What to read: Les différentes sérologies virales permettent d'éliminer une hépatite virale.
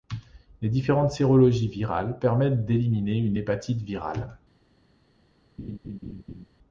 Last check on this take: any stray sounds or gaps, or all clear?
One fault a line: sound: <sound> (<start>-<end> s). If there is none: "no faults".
sound: laugh (5.6-6.5 s)